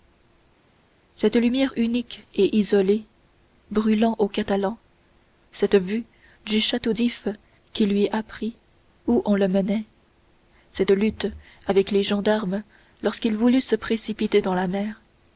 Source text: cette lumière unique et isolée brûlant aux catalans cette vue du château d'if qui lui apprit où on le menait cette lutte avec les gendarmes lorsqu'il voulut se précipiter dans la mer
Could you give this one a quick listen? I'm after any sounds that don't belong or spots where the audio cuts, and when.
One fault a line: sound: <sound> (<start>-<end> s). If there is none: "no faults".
no faults